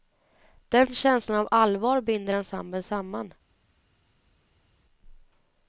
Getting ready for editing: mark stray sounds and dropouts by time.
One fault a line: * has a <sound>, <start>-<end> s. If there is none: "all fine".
all fine